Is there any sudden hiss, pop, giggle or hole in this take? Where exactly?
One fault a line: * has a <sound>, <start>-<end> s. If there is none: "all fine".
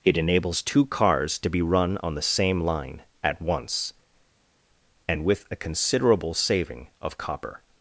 all fine